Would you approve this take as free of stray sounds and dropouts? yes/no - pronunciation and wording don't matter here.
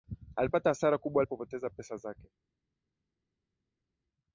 yes